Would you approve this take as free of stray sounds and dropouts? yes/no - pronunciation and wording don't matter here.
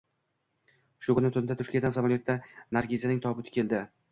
yes